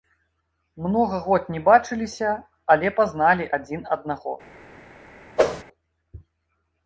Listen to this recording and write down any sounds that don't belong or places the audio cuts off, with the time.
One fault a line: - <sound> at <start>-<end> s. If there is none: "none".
- whoosh at 5.4-5.6 s